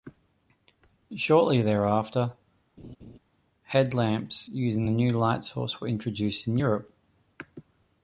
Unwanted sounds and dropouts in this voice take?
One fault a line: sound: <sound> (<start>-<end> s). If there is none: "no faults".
sound: laugh (2.8-3.2 s)